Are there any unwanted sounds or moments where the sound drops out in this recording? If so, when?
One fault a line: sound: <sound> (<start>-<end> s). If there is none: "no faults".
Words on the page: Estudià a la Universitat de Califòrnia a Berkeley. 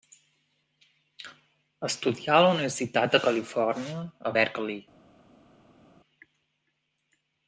no faults